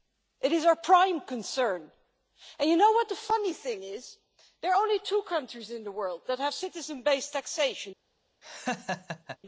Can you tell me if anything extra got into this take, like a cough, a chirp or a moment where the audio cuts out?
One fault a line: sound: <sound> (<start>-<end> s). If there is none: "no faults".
sound: laugh (8.4-9.4 s)